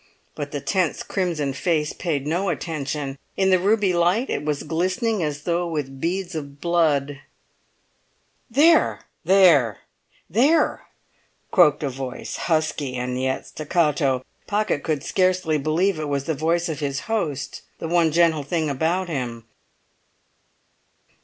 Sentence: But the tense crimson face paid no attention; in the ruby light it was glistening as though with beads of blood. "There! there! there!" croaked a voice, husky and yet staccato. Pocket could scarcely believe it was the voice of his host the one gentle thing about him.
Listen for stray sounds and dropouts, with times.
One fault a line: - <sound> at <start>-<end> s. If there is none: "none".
none